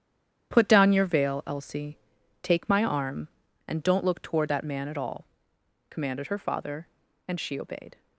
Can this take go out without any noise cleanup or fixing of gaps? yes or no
yes